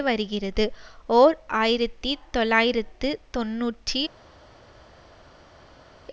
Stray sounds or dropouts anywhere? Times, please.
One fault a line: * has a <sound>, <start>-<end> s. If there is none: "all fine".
all fine